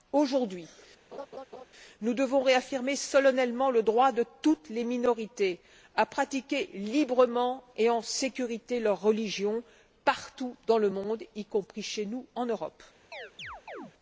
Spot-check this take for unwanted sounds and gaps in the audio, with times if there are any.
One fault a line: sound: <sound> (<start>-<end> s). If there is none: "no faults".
sound: laugh (1.1-1.7 s)
sound: chirp (13.1-13.9 s)